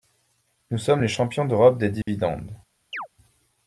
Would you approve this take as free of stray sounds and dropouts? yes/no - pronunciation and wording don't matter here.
no